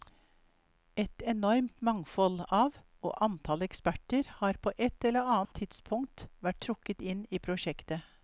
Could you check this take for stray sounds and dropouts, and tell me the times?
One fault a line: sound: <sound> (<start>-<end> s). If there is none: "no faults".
sound: dropout (5.5-5.5 s)